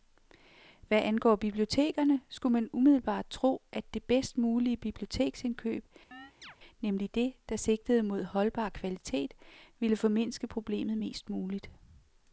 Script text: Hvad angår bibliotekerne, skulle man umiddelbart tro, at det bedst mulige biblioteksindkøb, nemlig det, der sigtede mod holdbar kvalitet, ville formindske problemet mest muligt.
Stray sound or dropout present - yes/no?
yes